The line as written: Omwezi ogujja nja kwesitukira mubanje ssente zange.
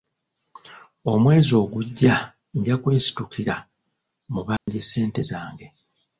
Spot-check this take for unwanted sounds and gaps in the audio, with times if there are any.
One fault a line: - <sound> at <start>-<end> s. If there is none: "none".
- dropout at 4.6-4.7 s